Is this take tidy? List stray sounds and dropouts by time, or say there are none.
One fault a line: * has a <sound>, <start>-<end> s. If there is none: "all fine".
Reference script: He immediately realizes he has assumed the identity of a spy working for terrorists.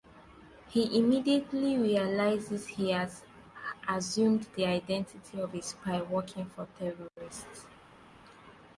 all fine